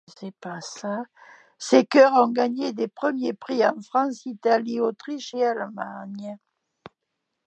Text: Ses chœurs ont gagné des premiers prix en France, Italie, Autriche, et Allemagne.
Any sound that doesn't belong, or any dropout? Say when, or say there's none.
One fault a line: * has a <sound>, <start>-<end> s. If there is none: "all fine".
all fine